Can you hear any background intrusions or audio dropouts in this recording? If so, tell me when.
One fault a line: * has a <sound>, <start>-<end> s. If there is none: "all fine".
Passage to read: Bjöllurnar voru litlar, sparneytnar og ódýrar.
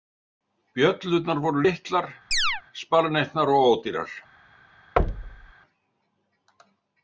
* has a chirp, 2.3-2.6 s
* has a thud, 5.0-5.5 s